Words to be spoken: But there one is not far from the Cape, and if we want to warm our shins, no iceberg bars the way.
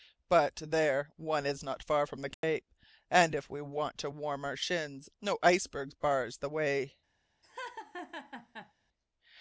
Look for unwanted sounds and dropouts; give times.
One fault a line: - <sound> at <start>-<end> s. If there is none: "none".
- dropout at 2.3-2.4 s
- laugh at 7.4-8.7 s